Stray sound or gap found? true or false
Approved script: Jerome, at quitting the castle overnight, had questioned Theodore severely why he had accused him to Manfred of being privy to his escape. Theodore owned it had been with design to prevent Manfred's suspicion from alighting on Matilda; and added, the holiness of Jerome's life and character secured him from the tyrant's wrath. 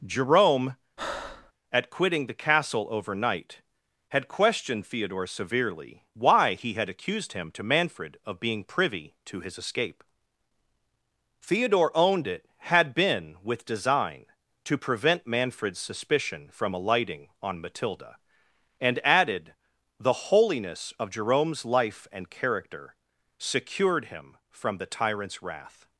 true